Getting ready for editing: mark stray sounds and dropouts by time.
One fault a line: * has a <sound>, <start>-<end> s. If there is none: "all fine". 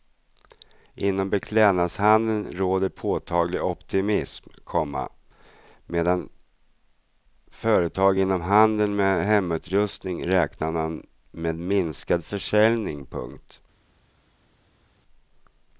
all fine